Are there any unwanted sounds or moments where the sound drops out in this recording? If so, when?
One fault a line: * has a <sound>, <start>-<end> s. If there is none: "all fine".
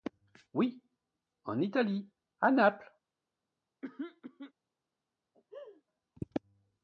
* has a throat clearing, 3.8-4.5 s
* has a laugh, 5.3-5.8 s